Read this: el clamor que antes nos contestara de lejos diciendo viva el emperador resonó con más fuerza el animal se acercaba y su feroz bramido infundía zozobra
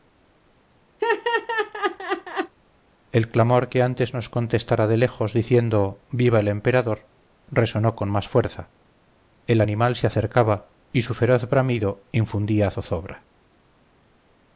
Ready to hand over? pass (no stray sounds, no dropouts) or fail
fail